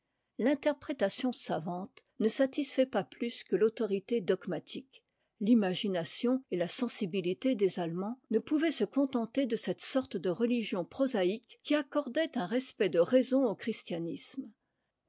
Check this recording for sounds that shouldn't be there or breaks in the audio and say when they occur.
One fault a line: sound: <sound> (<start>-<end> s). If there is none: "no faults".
no faults